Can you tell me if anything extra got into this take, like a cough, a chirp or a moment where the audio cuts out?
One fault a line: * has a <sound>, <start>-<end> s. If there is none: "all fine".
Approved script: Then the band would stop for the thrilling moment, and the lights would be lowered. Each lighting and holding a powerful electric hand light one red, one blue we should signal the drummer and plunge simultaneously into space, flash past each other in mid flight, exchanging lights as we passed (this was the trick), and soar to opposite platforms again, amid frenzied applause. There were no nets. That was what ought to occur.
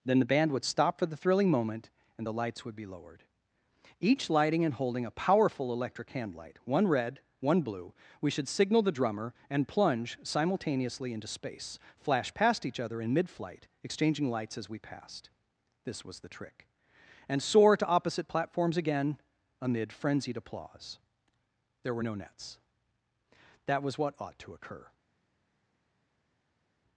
all fine